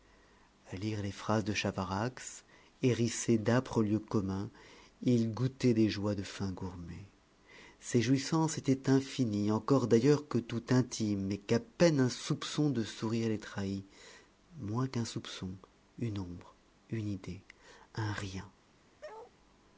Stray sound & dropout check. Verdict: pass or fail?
fail